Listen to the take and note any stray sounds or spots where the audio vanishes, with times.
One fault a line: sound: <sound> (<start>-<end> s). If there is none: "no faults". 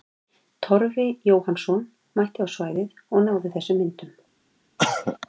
sound: cough (4.8-5.2 s)